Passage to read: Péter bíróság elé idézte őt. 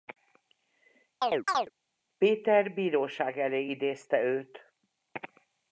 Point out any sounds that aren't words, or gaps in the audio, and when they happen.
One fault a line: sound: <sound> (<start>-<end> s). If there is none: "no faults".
sound: chirp (1.2-1.7 s)